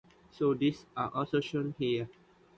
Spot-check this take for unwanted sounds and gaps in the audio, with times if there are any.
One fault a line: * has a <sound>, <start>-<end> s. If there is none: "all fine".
all fine